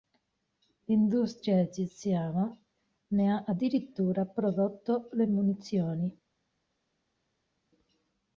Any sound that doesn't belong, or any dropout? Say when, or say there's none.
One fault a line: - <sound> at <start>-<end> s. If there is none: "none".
none